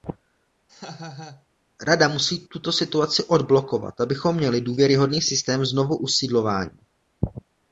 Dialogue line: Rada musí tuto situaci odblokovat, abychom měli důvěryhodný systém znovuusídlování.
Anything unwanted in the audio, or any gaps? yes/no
yes